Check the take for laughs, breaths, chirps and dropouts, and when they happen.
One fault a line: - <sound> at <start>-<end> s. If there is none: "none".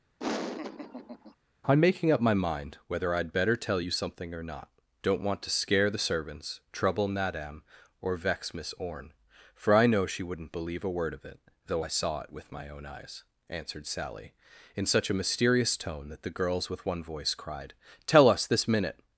- laugh at 0.2-1.4 s